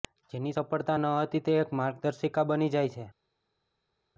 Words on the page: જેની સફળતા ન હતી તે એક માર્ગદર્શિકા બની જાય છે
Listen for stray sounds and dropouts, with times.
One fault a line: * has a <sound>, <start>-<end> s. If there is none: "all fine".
all fine